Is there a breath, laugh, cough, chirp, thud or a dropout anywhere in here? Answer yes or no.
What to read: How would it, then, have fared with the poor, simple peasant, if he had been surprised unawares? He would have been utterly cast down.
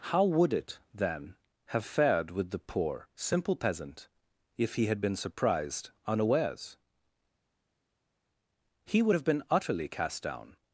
no